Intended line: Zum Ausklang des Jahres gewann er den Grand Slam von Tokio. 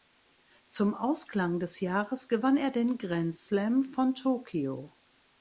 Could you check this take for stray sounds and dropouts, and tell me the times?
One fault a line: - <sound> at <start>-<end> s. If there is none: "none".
none